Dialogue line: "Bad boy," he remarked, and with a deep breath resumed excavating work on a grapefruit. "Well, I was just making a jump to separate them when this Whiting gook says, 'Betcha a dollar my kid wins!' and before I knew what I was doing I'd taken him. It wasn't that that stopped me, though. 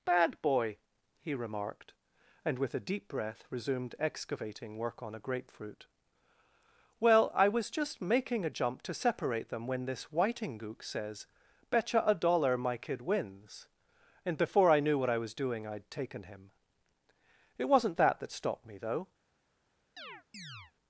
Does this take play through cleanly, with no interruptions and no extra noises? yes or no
no